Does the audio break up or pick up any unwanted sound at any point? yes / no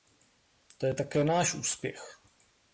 no